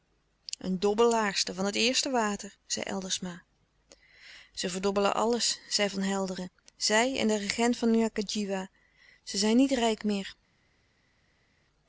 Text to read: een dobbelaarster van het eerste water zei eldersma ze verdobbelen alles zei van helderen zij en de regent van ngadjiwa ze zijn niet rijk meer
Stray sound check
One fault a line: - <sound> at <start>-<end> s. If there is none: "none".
none